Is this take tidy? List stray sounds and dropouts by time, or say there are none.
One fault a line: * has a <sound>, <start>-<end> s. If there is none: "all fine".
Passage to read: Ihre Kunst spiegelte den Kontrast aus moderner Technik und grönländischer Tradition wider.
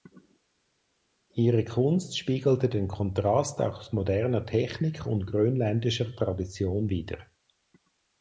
all fine